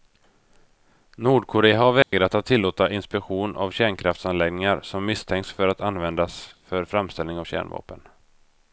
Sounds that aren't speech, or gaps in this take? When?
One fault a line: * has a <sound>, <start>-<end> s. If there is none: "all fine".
* has a dropout, 2.0-2.1 s